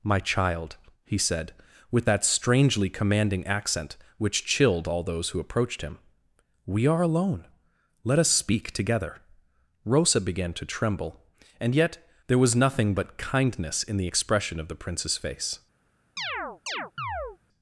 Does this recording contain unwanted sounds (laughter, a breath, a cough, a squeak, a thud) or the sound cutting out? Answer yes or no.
yes